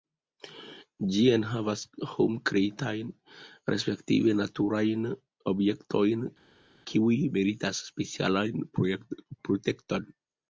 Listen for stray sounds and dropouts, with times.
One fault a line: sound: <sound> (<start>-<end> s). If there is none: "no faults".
no faults